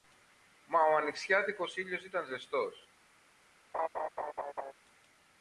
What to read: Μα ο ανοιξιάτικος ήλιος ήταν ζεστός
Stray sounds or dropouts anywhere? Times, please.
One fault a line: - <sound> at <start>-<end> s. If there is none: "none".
- laugh at 3.7-4.7 s